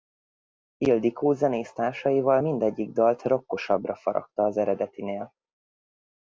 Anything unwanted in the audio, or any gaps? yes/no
no